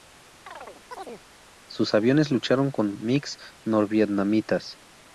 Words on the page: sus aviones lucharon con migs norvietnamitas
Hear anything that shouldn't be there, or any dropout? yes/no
yes